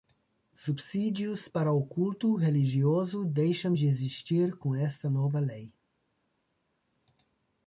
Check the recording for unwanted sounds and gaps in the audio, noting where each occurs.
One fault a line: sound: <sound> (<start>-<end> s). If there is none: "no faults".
no faults